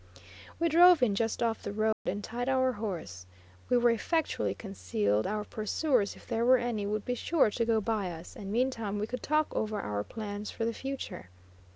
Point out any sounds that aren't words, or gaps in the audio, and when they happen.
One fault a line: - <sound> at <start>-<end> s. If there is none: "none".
- dropout at 1.9-2.1 s